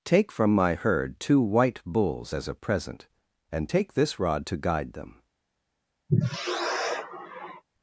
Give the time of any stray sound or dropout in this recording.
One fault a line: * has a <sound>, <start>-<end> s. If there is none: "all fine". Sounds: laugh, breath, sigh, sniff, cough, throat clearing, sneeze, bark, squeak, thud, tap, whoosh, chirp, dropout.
* has a sigh, 6.1-7.6 s